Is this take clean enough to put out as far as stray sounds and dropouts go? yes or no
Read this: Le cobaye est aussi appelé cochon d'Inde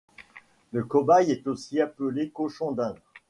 yes